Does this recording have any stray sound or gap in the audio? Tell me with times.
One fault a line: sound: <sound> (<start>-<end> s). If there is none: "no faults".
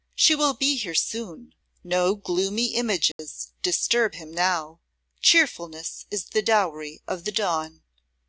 sound: dropout (3.1-3.2 s)